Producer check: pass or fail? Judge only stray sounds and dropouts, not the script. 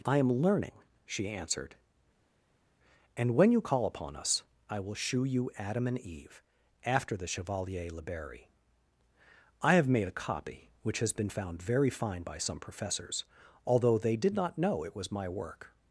pass